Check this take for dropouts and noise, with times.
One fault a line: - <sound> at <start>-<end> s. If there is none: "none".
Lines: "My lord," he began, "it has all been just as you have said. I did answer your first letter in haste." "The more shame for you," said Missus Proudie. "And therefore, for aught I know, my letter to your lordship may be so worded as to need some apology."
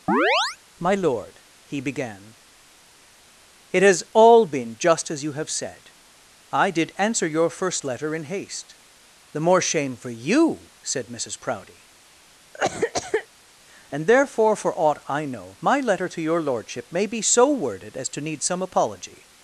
- chirp at 0.1-0.6 s
- cough at 12.5-13.3 s